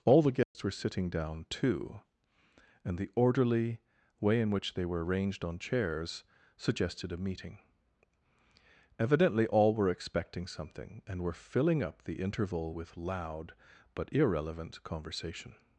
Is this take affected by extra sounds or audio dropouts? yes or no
yes